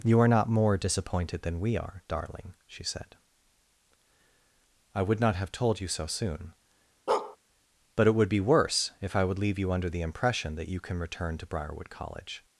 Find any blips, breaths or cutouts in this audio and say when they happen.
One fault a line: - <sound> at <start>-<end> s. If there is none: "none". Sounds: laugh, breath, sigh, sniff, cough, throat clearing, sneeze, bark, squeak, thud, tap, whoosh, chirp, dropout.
- bark at 7.1-7.4 s